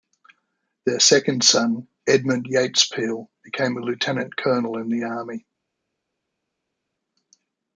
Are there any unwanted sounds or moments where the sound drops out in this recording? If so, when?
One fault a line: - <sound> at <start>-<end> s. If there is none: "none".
none